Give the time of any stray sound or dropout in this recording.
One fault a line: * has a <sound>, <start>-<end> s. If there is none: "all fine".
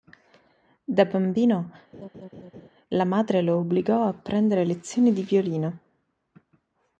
* has a laugh, 1.9-2.7 s